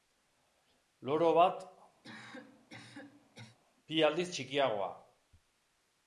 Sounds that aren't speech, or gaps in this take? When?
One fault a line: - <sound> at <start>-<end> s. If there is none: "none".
- cough at 2.0-3.6 s